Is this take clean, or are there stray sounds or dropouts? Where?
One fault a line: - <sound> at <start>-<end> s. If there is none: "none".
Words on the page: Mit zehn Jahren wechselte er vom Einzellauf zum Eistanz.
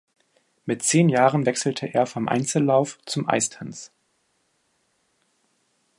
none